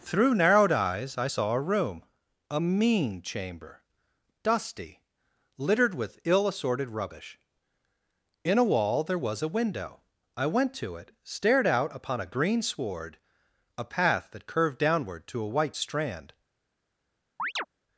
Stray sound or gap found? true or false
true